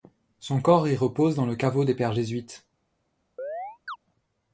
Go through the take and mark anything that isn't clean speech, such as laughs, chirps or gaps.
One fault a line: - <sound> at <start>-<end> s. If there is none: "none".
- chirp at 3.4-4.0 s